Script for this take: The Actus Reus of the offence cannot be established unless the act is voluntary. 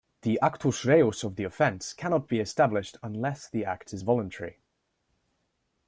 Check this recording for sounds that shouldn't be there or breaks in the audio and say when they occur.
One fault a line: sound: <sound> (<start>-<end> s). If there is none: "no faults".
no faults